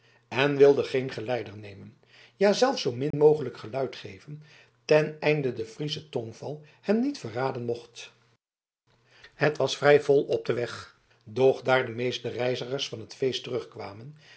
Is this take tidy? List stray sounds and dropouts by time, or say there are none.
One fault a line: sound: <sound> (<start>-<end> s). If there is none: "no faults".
sound: dropout (3.1-3.1 s)